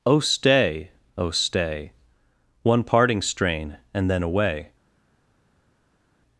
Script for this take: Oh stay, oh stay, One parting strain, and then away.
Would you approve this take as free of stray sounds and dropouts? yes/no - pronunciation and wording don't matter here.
yes